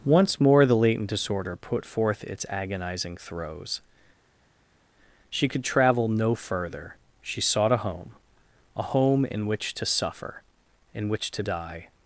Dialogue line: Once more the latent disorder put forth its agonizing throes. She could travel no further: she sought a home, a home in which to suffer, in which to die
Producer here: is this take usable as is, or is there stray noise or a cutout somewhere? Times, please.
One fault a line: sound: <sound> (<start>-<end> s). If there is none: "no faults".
no faults